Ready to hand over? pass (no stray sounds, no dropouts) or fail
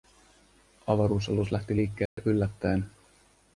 fail